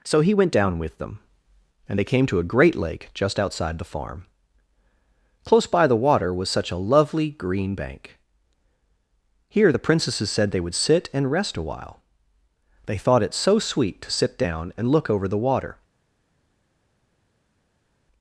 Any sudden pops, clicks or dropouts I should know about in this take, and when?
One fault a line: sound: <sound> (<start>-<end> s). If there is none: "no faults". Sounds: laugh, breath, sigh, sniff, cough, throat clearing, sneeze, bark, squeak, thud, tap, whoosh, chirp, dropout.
no faults